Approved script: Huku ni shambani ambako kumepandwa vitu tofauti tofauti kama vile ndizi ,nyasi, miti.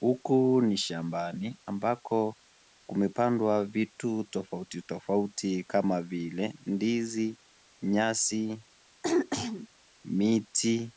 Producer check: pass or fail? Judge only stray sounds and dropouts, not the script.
fail